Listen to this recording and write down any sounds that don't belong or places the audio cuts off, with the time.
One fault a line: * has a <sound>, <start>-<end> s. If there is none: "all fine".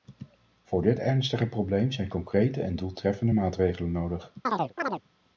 * has a chirp, 4.4-5.0 s